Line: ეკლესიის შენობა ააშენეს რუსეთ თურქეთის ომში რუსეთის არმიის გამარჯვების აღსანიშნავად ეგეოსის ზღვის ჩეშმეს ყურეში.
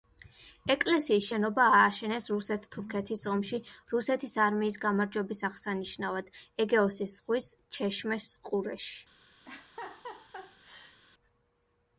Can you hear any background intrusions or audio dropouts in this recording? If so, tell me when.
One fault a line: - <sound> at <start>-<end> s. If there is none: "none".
- laugh at 9.4-11.0 s